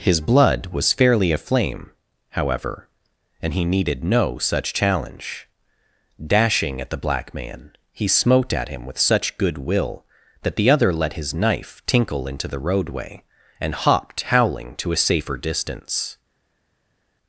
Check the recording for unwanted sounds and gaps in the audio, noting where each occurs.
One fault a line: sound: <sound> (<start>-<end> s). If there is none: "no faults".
no faults